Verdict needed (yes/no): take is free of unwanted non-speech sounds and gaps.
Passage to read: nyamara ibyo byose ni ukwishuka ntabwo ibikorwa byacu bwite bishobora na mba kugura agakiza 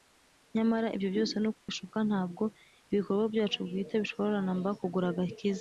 no